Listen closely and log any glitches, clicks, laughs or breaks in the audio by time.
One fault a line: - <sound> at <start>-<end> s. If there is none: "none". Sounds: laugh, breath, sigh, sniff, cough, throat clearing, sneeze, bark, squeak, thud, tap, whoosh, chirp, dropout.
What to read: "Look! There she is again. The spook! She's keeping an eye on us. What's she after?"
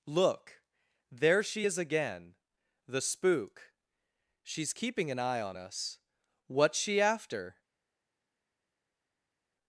none